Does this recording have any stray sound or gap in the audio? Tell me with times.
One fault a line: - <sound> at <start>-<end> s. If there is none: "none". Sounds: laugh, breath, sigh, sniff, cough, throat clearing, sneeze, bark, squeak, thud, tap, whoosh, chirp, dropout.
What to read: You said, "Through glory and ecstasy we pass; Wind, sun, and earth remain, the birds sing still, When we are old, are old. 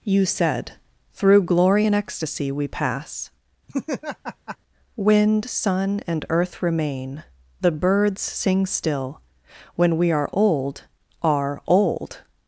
- laugh at 3.7-4.6 s